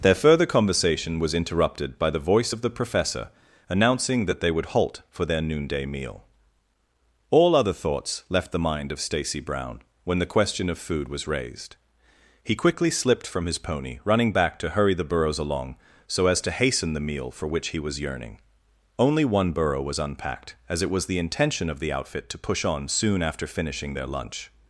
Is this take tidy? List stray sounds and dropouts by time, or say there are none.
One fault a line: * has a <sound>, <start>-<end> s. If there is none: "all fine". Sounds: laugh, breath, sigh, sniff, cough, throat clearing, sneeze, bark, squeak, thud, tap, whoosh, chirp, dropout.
all fine